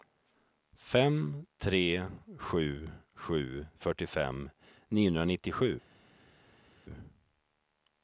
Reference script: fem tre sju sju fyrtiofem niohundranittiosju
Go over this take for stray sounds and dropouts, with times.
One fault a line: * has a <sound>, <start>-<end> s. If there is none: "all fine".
all fine